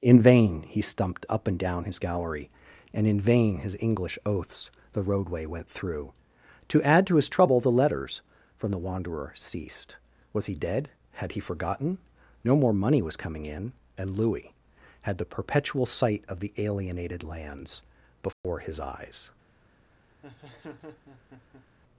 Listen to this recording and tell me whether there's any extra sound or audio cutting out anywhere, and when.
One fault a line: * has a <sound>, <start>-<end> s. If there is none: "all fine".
* has a dropout, 18.3-18.4 s
* has a laugh, 20.2-21.7 s